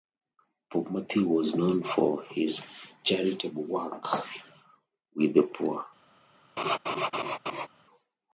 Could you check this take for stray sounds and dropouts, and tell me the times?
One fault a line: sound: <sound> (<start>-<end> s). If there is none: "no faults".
sound: laugh (6.6-7.7 s)